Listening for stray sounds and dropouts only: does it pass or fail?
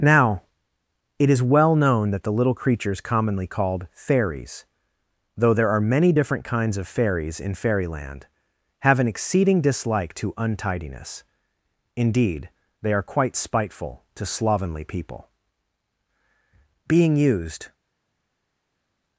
pass